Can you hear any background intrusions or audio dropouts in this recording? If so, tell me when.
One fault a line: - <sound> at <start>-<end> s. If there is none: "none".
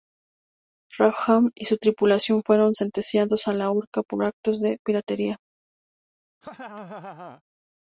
- laugh at 6.4-7.4 s